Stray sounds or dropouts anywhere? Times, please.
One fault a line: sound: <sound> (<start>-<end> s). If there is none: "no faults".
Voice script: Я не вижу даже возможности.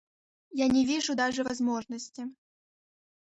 no faults